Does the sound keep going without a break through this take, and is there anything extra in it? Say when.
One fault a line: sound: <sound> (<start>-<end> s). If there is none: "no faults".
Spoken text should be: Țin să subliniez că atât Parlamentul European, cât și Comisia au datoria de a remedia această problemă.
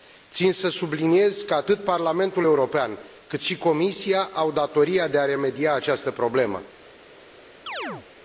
sound: chirp (7.7-8.1 s)